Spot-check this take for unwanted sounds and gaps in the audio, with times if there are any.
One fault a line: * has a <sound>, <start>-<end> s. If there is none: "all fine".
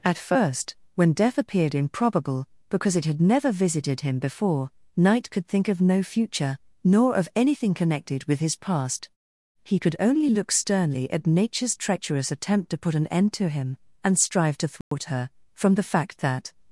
* has a dropout, 14.8-14.9 s